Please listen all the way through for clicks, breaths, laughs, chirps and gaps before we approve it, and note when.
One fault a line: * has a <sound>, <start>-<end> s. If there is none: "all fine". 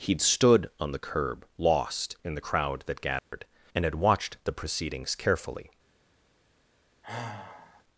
* has a dropout, 3.2-3.3 s
* has a sigh, 7.0-7.8 s